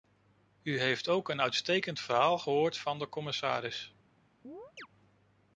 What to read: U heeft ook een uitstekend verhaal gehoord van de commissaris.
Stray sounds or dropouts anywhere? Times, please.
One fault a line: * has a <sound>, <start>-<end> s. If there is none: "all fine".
* has a chirp, 4.4-4.9 s